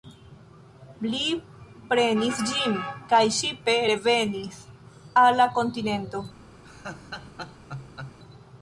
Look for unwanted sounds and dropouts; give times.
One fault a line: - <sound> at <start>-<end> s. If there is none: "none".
- laugh at 6.6-8.2 s